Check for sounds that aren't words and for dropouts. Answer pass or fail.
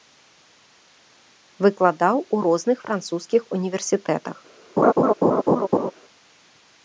fail